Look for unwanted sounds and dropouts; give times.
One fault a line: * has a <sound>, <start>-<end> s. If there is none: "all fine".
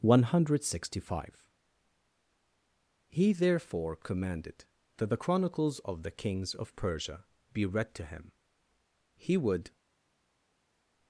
all fine